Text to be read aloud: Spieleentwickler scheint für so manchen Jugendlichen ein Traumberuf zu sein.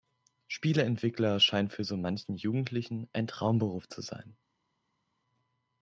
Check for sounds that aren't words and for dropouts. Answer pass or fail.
pass